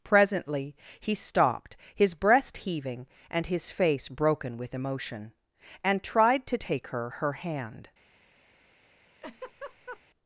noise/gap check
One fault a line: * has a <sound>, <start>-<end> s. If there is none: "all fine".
* has a laugh, 9.2-10.0 s